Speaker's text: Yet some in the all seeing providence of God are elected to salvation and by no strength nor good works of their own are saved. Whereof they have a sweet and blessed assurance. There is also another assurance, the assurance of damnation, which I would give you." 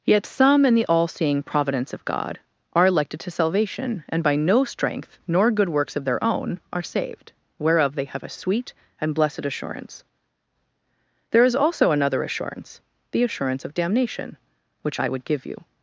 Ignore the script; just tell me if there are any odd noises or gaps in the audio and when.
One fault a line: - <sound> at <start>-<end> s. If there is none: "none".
none